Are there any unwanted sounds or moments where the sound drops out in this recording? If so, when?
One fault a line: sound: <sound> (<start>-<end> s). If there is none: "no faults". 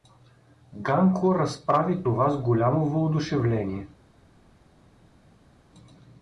no faults